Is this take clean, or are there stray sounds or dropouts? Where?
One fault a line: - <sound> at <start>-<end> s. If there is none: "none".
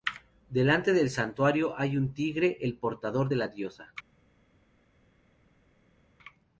none